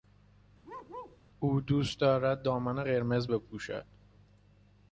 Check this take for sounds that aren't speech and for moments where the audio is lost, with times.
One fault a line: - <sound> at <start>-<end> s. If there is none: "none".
- bark at 0.6-1.2 s